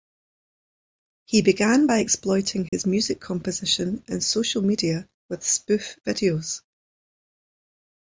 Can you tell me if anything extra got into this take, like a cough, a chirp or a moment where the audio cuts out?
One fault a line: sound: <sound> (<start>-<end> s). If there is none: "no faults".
sound: dropout (2.7-2.7 s)